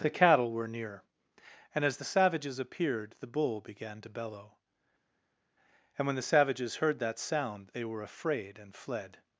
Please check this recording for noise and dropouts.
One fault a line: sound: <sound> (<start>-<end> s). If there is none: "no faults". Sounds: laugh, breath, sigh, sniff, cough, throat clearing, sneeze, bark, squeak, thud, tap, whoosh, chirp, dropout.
no faults